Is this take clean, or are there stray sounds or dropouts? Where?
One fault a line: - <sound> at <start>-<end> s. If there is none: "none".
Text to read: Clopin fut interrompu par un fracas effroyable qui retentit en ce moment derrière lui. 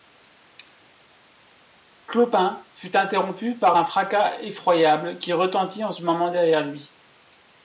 none